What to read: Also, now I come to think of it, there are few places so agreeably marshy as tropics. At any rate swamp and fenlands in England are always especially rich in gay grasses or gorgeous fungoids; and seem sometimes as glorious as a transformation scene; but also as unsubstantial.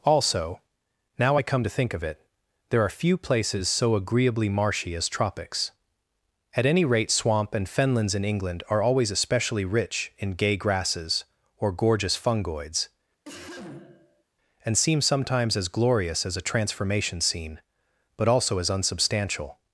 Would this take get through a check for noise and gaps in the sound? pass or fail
fail